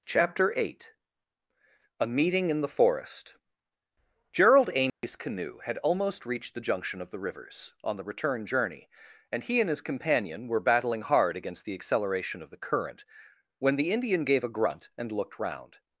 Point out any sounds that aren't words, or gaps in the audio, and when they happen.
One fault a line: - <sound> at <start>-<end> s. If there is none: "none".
- dropout at 4.9-5.0 s